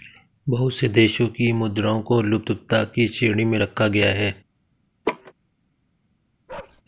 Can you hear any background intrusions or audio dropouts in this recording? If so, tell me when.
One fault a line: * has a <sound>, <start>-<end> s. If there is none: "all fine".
* has a laugh, 5.0-5.3 s
* has a bark, 6.5-6.8 s